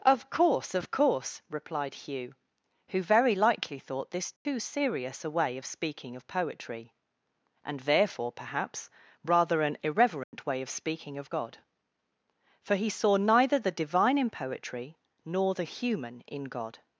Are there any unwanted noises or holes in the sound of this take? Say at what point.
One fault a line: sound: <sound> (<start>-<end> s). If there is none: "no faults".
sound: dropout (4.4-4.5 s)
sound: dropout (10.2-10.3 s)